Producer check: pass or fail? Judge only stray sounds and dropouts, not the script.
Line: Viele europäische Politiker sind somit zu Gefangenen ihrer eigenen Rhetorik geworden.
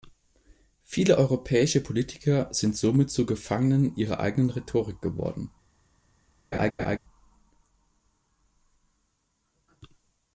fail